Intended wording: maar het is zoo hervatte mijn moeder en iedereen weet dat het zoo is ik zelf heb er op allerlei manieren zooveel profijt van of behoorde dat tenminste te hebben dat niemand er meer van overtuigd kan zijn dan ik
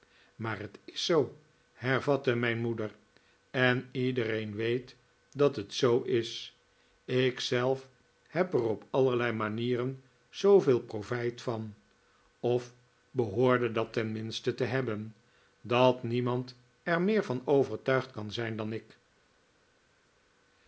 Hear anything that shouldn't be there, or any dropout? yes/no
no